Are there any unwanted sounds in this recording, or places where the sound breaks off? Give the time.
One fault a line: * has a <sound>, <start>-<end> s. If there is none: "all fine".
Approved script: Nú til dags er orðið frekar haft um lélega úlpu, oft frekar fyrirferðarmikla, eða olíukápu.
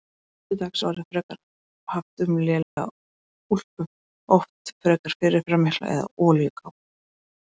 * has a dropout, 2.6-2.8 s